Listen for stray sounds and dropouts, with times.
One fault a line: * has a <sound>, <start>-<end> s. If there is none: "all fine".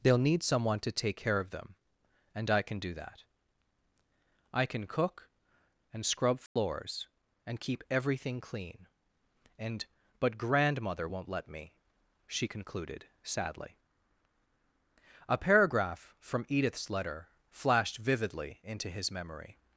* has a dropout, 6.5-6.6 s